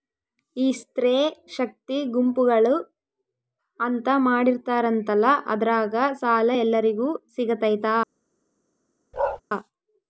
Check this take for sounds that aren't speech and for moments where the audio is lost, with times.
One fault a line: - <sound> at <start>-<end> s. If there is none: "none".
- bark at 9.1-9.4 s